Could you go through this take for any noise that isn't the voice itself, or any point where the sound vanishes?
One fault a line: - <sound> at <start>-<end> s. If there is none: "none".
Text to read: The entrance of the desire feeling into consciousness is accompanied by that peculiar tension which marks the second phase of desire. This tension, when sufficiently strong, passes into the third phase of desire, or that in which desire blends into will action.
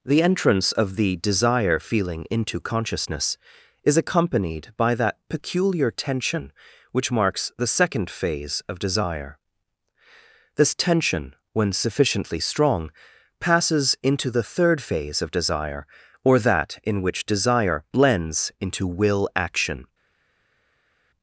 none